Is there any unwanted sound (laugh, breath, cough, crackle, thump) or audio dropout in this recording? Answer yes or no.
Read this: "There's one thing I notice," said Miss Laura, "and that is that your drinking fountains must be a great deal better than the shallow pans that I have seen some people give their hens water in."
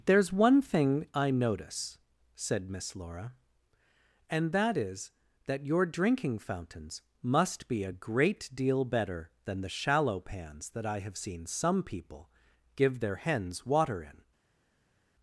no